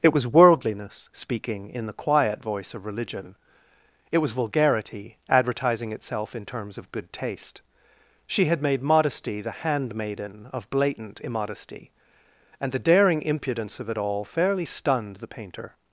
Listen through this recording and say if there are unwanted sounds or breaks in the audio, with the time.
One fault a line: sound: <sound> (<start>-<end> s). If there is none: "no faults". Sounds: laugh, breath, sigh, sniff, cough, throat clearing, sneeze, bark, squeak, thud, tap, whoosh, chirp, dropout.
no faults